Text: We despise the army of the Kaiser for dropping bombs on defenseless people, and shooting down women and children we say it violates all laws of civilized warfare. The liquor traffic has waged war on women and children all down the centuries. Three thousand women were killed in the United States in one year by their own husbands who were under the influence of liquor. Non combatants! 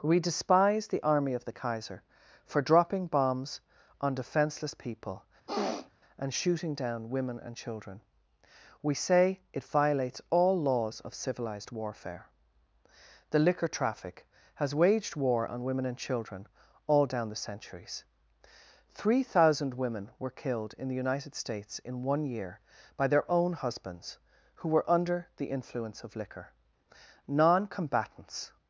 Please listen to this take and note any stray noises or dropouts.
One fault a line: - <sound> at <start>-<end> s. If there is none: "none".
- sniff at 5.5-5.9 s